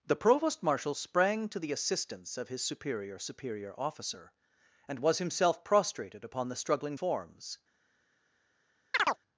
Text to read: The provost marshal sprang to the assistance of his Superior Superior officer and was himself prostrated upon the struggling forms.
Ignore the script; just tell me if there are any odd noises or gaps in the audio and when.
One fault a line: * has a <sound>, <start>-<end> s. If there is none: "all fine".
* has a chirp, 8.9-9.2 s